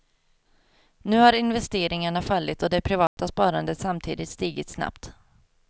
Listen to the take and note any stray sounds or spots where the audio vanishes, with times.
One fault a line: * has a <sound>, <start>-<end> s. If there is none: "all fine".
* has a dropout, 3.1-3.2 s